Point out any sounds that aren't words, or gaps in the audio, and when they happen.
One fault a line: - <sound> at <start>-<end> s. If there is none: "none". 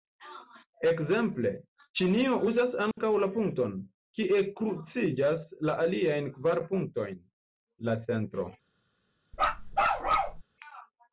- dropout at 2.9-3.0 s
- bark at 9.3-10.4 s